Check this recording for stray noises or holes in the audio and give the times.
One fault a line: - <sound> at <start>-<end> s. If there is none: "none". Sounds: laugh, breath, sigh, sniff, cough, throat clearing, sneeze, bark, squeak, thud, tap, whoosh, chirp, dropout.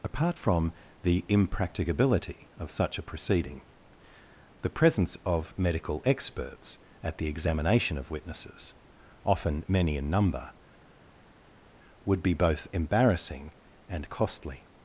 none